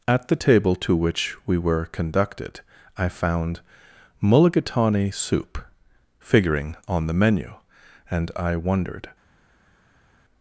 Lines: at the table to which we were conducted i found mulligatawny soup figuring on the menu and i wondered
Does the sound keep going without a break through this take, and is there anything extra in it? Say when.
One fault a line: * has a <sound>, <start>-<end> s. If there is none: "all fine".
all fine